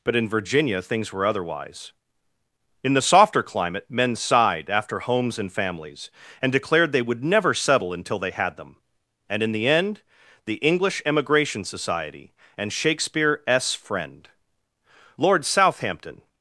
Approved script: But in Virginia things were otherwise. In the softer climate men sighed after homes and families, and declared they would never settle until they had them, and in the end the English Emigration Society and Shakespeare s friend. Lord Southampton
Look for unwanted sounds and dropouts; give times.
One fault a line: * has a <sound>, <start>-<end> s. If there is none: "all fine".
all fine